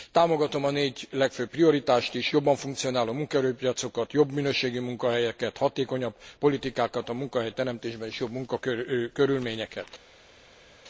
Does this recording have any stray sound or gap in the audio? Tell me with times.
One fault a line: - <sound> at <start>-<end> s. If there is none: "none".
none